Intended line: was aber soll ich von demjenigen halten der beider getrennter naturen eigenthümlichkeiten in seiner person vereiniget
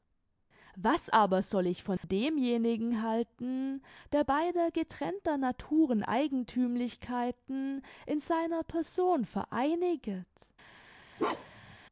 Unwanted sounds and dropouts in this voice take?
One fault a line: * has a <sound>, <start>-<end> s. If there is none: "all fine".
* has a dropout, 2.0-2.0 s
* has a bark, 11.2-11.8 s